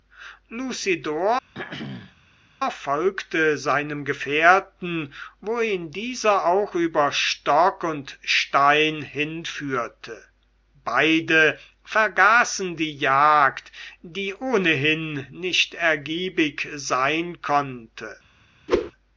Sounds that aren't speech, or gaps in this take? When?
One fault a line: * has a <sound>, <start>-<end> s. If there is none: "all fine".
* has a throat clearing, 1.5-2.1 s
* has a whoosh, 18.7-18.9 s